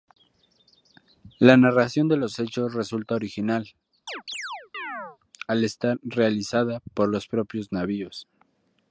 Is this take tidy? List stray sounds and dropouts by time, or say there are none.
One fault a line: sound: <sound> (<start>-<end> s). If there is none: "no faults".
sound: chirp (4.1-5.2 s)